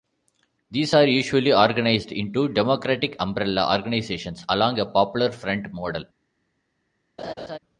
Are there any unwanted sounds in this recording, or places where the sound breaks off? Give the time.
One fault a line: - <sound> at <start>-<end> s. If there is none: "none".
- laugh at 7.2-7.6 s